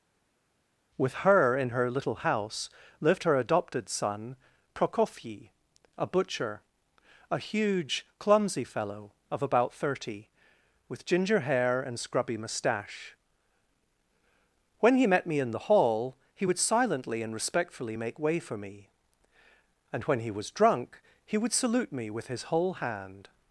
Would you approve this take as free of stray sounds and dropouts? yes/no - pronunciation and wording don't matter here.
yes